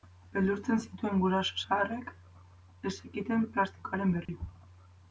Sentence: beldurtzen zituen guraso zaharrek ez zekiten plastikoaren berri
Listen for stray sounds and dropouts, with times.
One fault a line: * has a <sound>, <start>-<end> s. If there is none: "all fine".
* has a dropout, 4.3-4.3 s